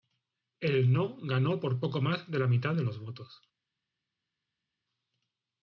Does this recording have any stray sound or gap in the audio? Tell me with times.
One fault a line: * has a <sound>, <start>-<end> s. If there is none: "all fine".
all fine